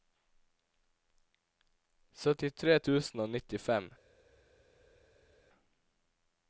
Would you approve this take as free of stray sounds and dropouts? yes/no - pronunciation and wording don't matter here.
yes